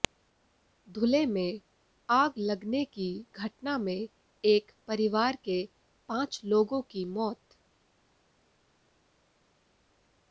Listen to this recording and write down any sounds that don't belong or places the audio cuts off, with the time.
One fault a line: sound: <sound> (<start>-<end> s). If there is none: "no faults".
no faults